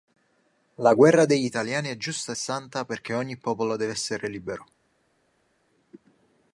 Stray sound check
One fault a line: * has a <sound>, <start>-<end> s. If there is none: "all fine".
all fine